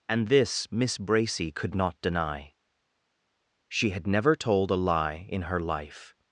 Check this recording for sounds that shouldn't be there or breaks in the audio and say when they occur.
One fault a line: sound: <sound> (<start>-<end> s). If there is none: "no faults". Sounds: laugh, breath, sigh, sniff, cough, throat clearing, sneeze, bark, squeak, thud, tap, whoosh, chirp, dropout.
no faults